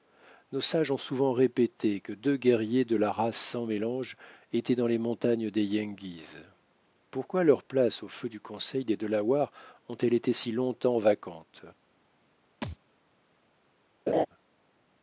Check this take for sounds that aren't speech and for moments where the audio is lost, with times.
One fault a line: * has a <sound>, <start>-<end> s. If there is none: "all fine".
* has a thud, 12.6-12.8 s
* has a laugh, 14.1-14.3 s